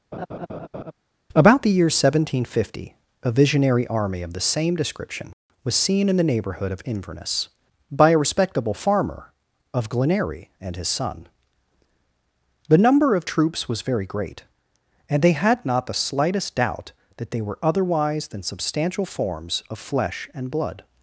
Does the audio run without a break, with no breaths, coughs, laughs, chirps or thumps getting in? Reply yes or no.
no